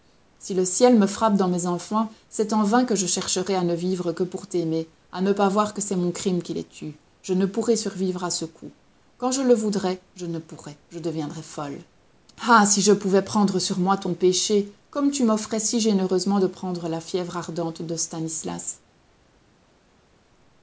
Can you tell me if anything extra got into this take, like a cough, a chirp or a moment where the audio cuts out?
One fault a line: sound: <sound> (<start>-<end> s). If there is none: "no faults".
no faults